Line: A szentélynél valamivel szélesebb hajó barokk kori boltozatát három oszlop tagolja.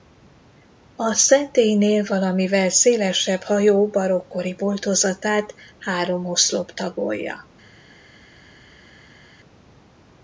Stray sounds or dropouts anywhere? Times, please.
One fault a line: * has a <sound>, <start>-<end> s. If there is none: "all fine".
all fine